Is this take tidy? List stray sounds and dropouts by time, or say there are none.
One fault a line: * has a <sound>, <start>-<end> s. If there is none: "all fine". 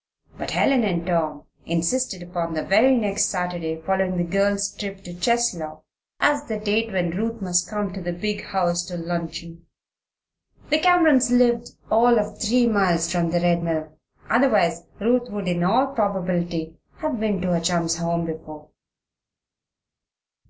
all fine